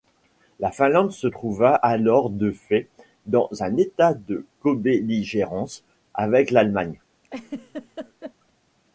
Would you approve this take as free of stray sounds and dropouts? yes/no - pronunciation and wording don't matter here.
no